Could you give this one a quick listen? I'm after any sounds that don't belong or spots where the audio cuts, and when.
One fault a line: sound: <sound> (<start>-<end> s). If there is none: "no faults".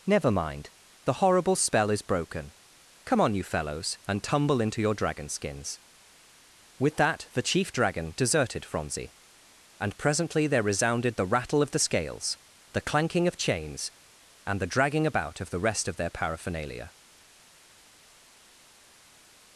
no faults